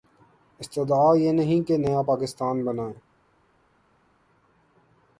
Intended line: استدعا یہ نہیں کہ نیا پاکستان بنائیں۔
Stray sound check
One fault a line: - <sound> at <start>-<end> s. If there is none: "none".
none